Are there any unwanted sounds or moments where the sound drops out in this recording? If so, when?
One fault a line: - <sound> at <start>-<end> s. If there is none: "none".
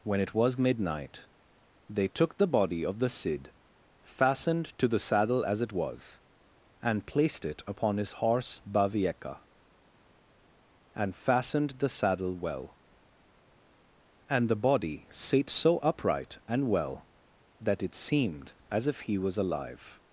none